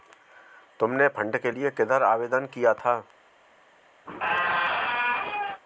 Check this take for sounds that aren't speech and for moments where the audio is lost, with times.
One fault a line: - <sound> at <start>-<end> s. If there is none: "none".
- squeak at 4.1-5.6 s